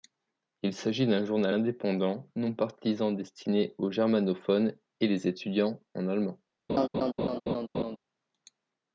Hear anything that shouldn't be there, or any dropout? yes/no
yes